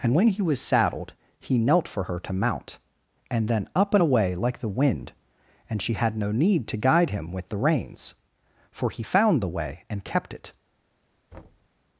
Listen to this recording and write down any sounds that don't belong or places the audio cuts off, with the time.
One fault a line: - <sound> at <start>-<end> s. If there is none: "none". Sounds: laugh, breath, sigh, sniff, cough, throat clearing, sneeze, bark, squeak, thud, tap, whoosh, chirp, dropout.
- thud at 11.3-11.7 s